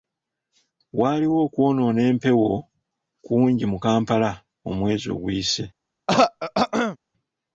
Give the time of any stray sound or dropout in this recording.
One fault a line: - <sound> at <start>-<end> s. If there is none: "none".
- throat clearing at 6.1-7.0 s